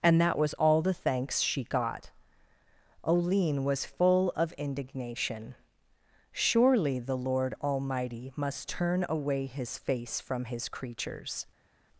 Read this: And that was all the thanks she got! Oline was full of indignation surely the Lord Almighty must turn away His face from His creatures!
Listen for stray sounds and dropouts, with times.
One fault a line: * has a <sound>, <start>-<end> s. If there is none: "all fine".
all fine